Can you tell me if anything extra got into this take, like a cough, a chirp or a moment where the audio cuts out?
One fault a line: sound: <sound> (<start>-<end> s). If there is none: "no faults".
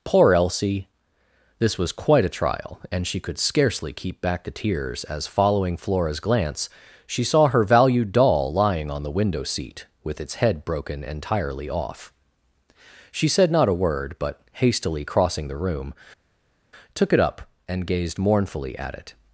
no faults